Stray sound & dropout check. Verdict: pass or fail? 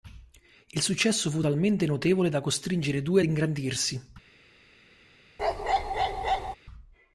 fail